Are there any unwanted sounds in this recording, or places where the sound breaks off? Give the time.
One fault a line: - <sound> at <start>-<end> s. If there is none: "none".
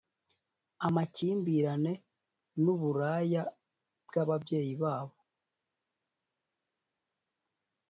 none